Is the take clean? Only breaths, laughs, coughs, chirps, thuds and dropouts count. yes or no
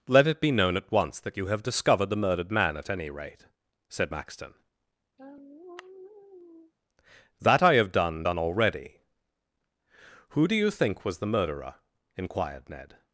no